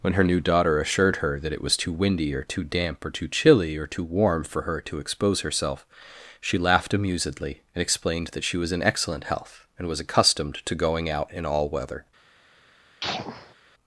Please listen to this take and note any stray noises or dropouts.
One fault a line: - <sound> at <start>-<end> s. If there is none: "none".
- sneeze at 13.0-13.5 s